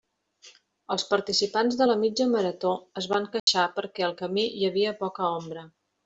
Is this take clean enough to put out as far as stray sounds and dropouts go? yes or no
no